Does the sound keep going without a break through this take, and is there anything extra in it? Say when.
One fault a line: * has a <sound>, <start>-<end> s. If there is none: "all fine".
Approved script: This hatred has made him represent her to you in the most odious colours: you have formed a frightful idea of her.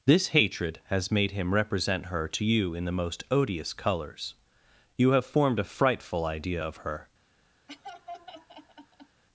* has a laugh, 7.7-9.2 s